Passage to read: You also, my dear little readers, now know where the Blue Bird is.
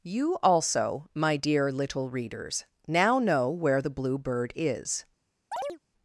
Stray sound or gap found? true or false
true